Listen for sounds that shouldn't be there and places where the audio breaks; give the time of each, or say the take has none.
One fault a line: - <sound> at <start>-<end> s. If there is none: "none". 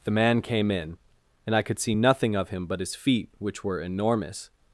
none